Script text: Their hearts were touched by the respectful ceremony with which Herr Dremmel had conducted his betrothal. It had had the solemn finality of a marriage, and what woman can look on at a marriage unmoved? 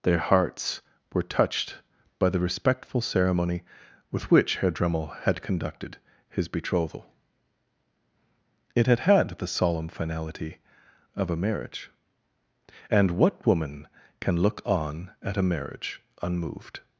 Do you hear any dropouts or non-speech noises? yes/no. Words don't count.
no